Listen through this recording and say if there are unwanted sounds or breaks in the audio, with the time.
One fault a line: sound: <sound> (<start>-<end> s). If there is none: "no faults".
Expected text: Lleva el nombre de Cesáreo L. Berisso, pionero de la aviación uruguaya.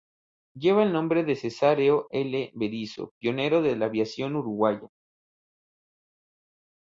no faults